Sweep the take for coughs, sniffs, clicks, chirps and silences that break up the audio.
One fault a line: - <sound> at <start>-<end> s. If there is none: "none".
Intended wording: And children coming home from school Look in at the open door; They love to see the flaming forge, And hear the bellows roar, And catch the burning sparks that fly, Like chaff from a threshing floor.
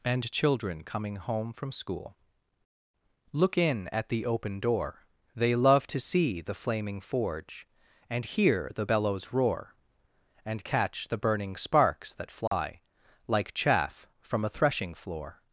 - dropout at 12.5-12.5 s